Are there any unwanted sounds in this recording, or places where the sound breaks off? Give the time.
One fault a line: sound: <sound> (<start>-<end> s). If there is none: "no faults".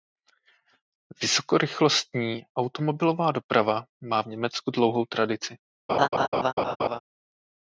sound: laugh (5.9-7.0 s)